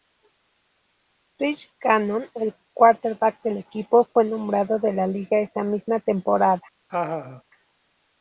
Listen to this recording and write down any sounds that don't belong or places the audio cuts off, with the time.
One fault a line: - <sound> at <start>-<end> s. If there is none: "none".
- laugh at 6.9-7.4 s